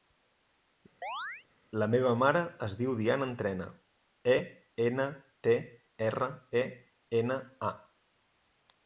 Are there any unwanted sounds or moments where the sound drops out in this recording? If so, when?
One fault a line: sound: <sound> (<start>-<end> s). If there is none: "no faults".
sound: chirp (1.0-1.5 s)